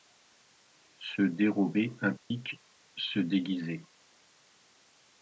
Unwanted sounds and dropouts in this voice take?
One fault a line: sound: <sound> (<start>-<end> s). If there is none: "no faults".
sound: dropout (2.2-2.3 s)